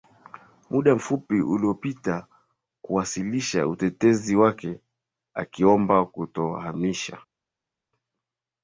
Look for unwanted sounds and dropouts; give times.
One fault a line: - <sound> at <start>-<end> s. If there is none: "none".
none